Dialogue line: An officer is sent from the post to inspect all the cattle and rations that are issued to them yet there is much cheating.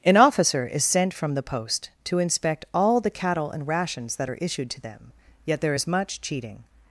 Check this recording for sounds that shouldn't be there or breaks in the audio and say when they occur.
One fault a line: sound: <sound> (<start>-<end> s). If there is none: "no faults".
no faults